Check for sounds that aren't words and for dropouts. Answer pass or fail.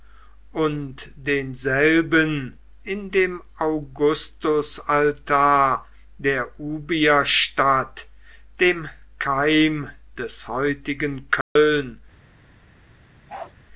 fail